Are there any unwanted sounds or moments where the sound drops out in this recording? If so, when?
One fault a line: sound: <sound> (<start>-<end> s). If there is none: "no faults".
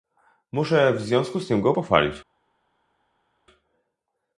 no faults